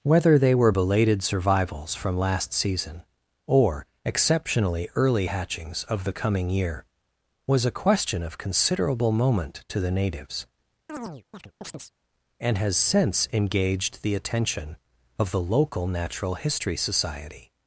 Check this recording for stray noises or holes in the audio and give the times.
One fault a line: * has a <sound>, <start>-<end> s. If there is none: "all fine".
* has a chirp, 10.9-11.9 s